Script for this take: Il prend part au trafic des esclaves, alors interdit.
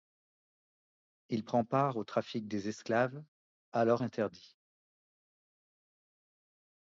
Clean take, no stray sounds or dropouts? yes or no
yes